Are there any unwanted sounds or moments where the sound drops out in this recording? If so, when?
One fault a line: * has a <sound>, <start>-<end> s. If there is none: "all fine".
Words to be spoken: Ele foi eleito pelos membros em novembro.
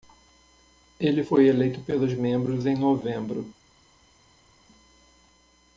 all fine